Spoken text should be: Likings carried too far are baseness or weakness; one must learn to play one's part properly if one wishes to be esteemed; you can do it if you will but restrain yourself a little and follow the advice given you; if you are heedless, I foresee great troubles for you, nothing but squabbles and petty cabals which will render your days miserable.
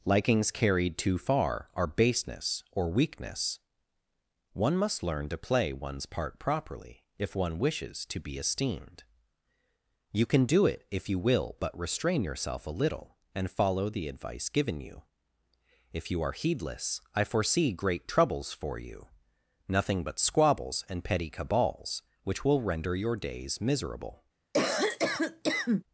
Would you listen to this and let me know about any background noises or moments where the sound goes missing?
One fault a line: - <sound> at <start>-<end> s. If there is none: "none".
- cough at 24.5-25.8 s